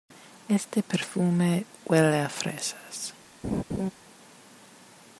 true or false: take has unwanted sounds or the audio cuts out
true